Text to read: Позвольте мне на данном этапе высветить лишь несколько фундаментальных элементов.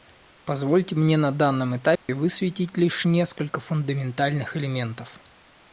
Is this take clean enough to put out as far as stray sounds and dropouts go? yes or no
no